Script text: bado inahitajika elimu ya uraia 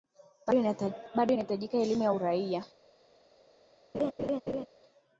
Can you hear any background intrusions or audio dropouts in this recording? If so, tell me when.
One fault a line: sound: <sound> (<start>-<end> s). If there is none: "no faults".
sound: laugh (3.9-4.7 s)